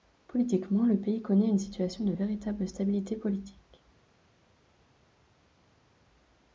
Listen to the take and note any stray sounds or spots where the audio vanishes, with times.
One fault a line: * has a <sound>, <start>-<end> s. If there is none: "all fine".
all fine